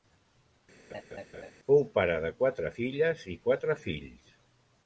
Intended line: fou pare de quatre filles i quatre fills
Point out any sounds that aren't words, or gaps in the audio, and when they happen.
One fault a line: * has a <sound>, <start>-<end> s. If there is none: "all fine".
* has a laugh, 0.9-1.5 s